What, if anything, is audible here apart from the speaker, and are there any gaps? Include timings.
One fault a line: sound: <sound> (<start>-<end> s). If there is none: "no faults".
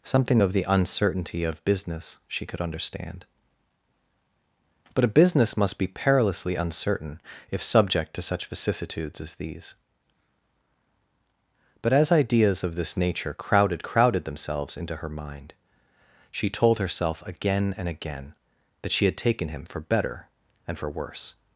no faults